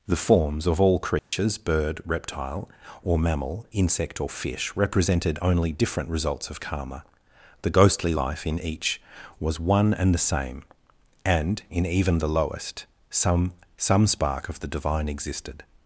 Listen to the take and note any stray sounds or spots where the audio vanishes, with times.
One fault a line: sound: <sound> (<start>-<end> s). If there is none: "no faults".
sound: dropout (1.2-1.3 s)